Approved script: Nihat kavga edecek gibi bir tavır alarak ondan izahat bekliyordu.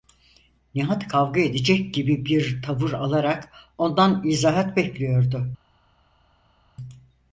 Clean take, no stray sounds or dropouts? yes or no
yes